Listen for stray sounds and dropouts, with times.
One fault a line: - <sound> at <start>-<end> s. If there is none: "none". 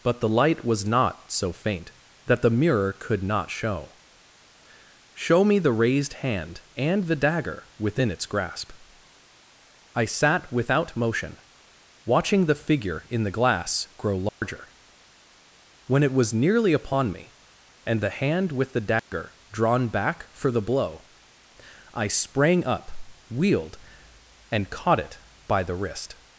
- dropout at 14.3-14.4 s
- dropout at 19.0-19.1 s